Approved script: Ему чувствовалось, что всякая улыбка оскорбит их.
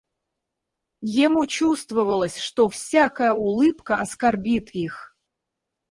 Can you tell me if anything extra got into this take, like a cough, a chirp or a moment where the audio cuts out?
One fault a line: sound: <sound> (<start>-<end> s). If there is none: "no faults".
no faults